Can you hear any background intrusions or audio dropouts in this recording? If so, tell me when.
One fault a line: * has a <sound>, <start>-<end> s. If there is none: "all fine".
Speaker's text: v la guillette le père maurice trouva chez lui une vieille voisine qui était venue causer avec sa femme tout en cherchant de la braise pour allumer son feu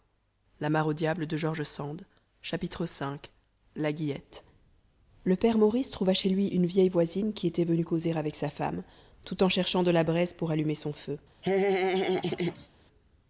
* has a laugh, 11.4-12.7 s